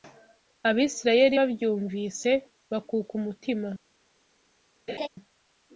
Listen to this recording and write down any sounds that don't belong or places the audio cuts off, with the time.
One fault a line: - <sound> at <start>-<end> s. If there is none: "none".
- laugh at 4.9-5.1 s